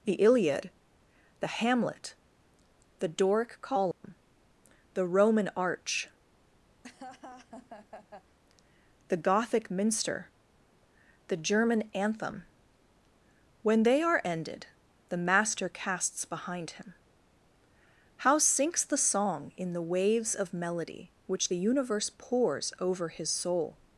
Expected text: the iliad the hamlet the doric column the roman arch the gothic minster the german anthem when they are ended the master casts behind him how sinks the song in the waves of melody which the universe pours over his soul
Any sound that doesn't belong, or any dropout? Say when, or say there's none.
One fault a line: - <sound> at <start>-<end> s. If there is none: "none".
- dropout at 3.9-4.0 s
- laugh at 6.8-8.4 s